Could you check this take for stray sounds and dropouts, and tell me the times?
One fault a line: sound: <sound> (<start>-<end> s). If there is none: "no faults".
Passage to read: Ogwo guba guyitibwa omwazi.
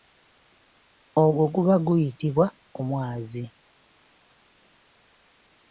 no faults